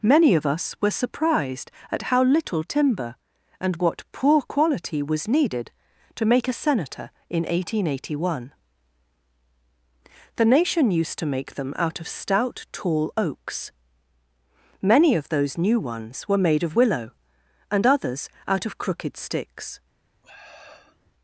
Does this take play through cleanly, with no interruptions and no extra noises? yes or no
no